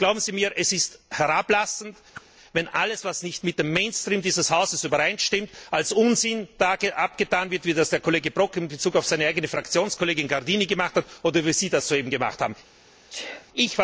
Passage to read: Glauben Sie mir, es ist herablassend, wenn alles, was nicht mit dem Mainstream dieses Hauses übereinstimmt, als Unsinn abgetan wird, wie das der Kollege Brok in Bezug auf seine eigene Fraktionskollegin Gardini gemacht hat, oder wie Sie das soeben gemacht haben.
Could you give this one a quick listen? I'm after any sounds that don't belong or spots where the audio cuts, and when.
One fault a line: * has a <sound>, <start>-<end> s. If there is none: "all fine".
* has a whoosh, 2.1-2.3 s
* has a sneeze, 13.1-13.5 s